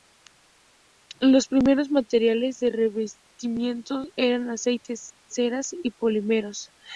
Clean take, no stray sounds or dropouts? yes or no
yes